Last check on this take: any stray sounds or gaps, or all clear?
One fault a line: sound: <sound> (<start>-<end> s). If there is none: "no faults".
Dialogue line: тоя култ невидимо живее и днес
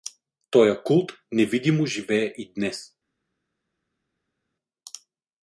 no faults